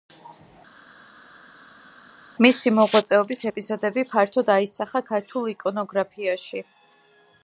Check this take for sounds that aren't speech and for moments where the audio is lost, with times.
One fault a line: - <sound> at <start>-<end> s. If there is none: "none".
none